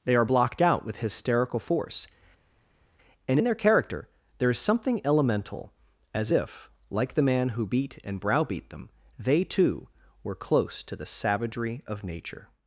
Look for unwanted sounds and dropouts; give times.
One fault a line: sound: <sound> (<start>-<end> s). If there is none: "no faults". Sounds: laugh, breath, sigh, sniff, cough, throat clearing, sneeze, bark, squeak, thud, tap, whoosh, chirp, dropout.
no faults